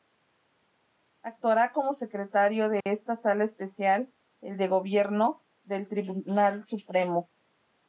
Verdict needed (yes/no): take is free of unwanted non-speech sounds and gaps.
no